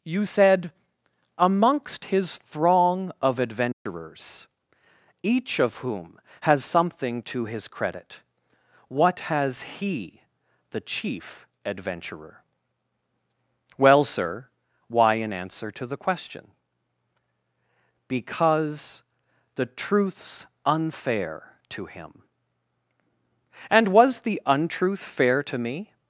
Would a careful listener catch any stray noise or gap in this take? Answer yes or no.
yes